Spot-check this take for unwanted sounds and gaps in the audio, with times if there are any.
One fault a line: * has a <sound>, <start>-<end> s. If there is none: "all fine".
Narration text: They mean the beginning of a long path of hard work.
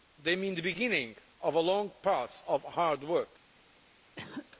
* has a cough, 4.2-4.5 s